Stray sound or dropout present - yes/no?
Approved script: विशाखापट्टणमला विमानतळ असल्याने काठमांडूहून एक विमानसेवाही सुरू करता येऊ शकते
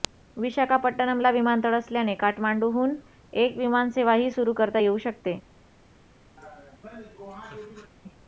yes